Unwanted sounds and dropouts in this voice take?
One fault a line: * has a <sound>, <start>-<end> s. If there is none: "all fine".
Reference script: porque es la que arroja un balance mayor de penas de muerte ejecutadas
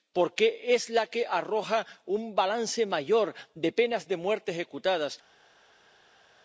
all fine